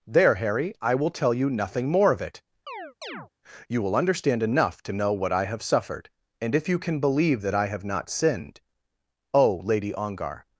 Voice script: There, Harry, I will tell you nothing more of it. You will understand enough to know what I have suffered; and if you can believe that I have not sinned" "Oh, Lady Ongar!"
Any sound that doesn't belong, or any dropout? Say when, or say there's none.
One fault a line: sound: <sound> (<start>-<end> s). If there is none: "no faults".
sound: chirp (2.7-3.3 s)